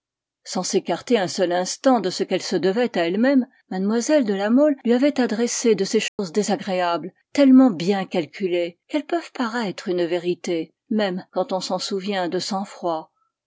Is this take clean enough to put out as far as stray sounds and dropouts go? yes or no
no